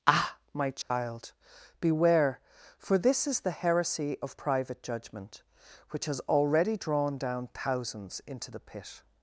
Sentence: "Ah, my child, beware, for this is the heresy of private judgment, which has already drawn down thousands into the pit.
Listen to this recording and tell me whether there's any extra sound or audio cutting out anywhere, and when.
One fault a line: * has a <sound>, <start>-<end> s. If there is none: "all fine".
* has a dropout, 0.8-0.9 s